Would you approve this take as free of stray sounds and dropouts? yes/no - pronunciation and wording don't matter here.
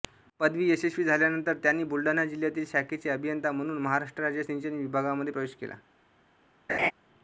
no